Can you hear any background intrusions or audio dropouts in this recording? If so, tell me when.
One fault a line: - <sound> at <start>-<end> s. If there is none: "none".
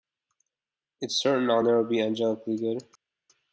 none